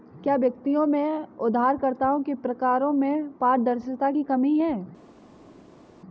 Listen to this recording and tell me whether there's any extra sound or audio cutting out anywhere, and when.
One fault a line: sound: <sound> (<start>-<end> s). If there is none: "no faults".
no faults